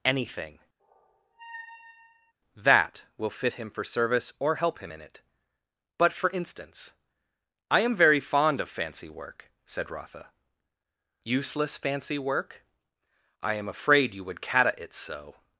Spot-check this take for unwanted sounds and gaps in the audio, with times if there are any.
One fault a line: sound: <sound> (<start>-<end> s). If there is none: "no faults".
sound: squeak (0.8-2.3 s)